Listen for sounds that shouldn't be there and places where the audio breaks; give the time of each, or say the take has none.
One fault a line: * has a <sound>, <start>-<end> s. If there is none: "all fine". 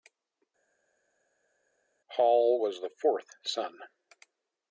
all fine